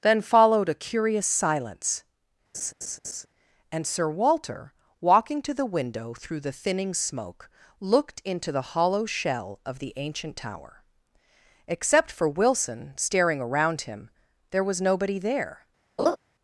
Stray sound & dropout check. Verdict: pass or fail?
fail